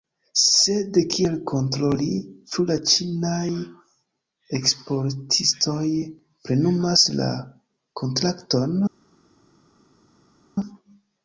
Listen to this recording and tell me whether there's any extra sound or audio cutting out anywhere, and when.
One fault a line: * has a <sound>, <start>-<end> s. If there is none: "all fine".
all fine